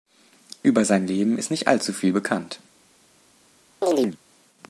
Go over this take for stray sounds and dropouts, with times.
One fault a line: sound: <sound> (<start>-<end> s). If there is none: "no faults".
sound: chirp (3.8-4.2 s)